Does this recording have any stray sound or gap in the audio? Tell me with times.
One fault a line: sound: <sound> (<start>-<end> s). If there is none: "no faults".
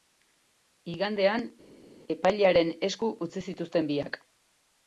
no faults